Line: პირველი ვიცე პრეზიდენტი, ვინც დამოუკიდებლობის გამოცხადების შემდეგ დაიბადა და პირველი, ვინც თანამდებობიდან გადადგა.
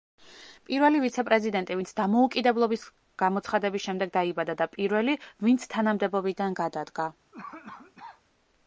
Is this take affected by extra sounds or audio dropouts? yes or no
yes